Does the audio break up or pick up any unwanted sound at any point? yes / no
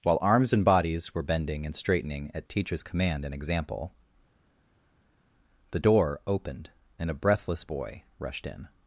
no